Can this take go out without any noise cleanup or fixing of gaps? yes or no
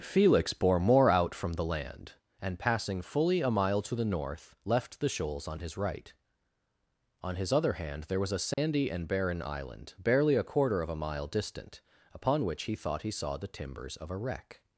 no